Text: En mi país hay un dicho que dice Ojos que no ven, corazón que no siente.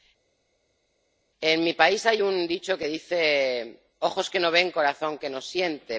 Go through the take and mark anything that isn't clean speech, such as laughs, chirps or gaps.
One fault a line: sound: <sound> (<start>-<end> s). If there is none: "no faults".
no faults